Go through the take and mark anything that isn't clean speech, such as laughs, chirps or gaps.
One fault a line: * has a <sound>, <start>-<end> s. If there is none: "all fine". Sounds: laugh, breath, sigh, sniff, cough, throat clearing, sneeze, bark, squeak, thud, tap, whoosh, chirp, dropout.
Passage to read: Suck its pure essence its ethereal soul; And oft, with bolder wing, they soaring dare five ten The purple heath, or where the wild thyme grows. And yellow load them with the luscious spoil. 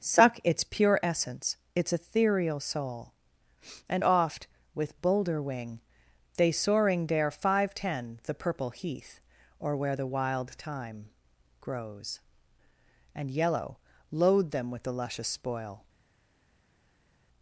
all fine